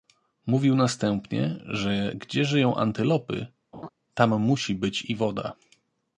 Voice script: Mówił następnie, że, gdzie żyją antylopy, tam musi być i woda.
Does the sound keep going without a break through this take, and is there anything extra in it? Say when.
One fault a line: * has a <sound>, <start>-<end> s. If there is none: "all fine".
* has a laugh, 3.7-3.9 s